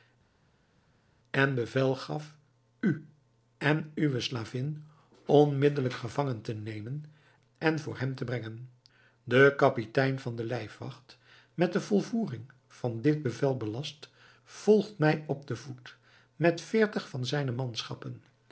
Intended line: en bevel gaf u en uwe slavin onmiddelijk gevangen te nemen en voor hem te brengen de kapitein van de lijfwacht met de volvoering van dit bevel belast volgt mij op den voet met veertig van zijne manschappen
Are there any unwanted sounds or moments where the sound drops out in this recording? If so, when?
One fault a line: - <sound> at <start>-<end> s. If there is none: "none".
none